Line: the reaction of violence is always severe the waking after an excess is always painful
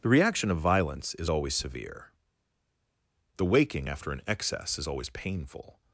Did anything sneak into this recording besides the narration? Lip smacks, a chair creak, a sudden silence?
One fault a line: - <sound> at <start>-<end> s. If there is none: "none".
none